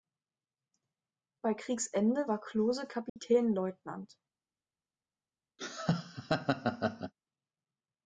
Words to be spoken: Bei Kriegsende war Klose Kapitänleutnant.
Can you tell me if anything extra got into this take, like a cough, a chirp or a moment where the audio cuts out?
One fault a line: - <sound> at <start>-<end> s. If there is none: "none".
- dropout at 3.1-3.2 s
- laugh at 5.6-7.1 s